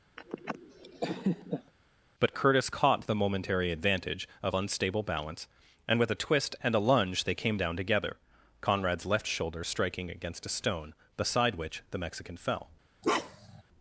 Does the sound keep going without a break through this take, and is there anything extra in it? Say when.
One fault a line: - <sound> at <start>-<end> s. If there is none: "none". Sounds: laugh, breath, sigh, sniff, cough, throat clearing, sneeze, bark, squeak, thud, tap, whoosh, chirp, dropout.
- laugh at 0.2-1.7 s
- bark at 13.0-13.6 s